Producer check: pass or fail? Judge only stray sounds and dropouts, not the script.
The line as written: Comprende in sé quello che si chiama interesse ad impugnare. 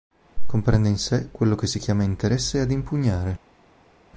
pass